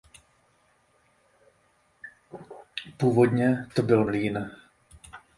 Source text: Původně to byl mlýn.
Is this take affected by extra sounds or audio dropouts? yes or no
no